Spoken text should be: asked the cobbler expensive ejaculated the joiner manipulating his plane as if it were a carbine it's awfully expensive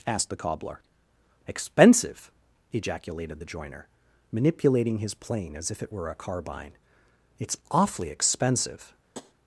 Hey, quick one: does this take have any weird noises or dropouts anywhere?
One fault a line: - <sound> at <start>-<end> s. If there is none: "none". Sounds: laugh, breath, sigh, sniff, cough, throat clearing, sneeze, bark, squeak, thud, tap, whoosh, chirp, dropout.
- tap at 9.1-9.3 s